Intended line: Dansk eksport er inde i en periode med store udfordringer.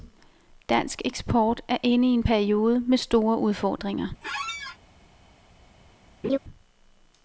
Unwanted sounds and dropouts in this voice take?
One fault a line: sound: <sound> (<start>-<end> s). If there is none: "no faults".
sound: squeak (4.2-4.8 s)
sound: laugh (6.2-6.4 s)